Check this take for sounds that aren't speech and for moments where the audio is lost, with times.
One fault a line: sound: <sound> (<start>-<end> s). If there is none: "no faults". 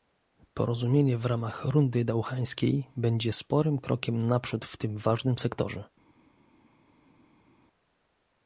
no faults